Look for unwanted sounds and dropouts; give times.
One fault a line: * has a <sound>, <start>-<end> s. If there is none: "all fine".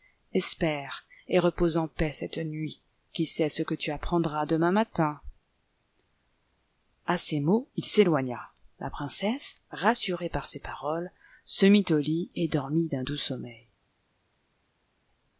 all fine